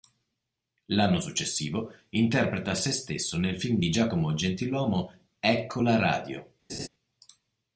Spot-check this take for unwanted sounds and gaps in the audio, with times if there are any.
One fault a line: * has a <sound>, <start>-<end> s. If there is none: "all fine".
* has a laugh, 6.7-6.9 s